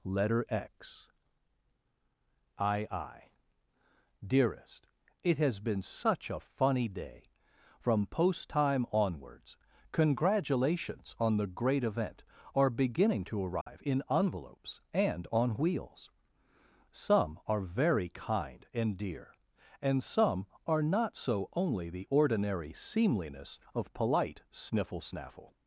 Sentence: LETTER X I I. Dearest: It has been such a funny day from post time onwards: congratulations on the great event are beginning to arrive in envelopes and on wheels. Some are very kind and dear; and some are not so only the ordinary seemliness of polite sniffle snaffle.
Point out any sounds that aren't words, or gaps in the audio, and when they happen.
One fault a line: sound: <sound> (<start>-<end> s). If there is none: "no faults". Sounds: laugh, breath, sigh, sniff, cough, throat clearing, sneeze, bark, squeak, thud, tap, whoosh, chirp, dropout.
sound: dropout (13.6-13.7 s)